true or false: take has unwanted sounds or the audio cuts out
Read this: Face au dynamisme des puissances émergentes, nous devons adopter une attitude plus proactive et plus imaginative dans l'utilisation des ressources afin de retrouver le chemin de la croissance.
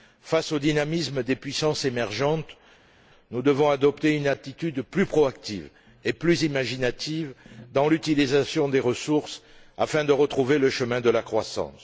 false